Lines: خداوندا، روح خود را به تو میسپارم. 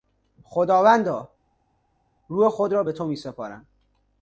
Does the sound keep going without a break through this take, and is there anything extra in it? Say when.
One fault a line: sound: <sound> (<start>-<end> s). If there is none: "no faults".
no faults